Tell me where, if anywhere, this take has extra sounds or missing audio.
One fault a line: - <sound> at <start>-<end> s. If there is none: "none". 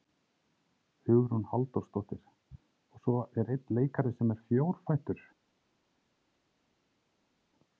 none